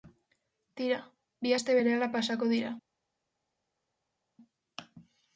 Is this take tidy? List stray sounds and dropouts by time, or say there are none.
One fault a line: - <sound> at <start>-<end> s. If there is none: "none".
none